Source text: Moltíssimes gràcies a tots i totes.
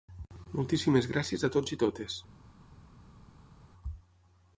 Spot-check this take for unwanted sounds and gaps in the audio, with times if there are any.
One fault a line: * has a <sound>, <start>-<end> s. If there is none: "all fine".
all fine